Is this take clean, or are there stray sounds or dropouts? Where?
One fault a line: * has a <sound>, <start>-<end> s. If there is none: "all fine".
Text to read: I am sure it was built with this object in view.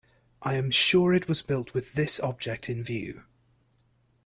all fine